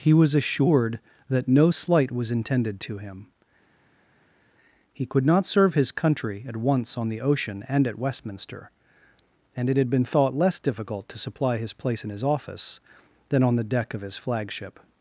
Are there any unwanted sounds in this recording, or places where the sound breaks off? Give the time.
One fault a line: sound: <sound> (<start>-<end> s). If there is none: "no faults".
no faults